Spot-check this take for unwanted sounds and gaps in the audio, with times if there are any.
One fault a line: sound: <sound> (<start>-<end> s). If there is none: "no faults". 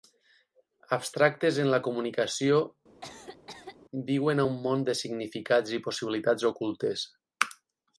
sound: cough (3.0-3.8 s)